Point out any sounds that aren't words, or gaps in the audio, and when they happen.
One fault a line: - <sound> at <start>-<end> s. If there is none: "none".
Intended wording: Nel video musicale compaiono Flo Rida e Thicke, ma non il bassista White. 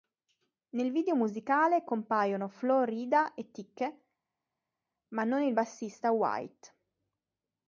none